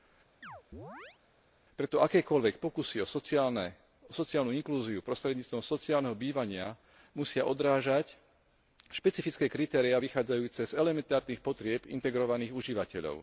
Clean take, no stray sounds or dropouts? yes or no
no